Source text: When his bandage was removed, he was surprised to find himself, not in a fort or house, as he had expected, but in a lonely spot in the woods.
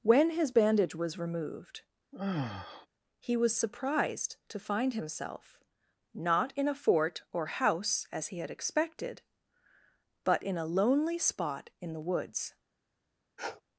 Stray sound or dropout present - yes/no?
yes